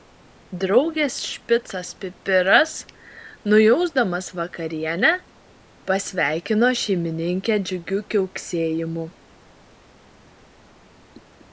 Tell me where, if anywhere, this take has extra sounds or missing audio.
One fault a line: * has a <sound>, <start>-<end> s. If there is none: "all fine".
all fine